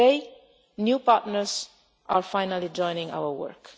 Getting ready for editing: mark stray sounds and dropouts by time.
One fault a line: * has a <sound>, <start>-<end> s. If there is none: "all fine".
all fine